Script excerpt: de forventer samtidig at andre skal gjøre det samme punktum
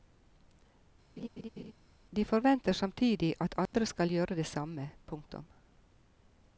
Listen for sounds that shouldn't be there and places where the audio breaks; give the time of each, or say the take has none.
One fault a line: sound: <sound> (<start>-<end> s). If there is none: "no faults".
sound: laugh (1.2-1.7 s)
sound: dropout (3.7-3.7 s)